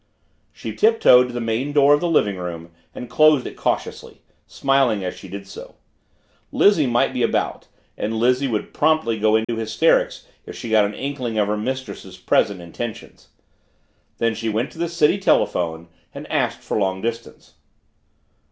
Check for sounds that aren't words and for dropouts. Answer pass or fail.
fail